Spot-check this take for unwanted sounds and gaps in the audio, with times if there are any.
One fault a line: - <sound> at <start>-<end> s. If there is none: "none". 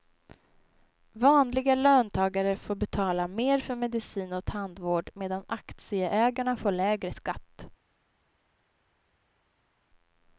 none